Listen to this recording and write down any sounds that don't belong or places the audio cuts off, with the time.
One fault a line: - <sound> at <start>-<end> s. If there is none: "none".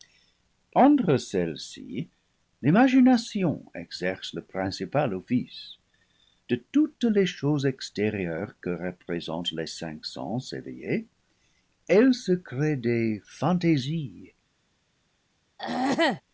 - throat clearing at 15.6-16.2 s